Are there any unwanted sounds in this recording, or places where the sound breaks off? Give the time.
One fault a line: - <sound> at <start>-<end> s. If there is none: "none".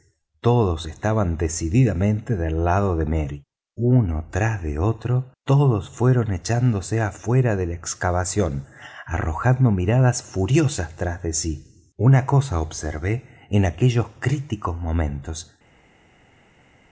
none